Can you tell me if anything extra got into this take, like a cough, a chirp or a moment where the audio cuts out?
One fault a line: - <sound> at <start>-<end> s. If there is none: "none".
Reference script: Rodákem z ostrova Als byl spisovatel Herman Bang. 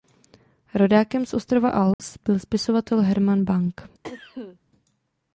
- dropout at 1.9-2.0 s
- cough at 4.0-4.6 s